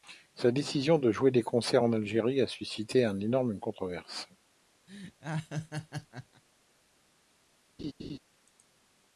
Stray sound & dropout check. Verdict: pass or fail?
fail